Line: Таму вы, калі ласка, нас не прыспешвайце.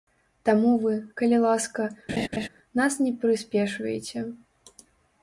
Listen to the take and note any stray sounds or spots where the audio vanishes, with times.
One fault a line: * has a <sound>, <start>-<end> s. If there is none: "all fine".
* has a laugh, 2.1-2.5 s